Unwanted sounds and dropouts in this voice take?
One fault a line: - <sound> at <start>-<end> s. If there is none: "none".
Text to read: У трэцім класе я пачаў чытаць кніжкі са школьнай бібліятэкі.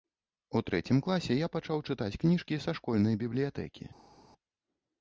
none